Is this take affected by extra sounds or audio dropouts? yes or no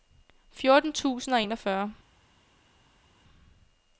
no